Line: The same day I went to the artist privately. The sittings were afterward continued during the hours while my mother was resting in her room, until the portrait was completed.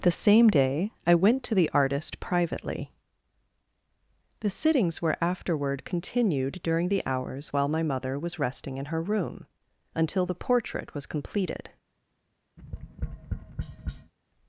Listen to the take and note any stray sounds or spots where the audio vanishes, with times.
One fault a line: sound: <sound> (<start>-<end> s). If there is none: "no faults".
sound: tap (12.6-14.1 s)